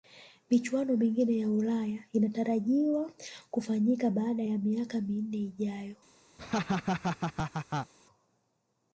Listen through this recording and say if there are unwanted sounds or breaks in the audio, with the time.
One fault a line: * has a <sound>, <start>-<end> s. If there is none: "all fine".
* has a laugh, 6.4-7.9 s